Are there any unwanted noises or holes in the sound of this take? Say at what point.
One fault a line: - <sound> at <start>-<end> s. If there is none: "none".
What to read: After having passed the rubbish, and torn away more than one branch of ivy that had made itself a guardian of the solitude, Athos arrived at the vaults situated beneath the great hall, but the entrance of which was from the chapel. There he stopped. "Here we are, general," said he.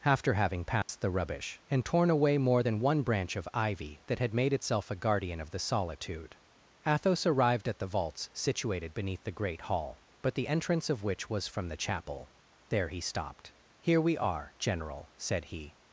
- dropout at 0.8-0.9 s